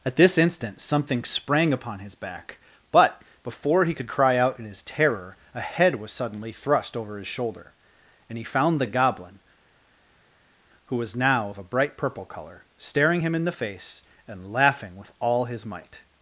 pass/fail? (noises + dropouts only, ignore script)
pass